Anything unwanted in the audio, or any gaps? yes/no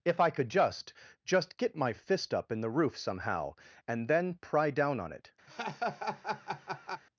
yes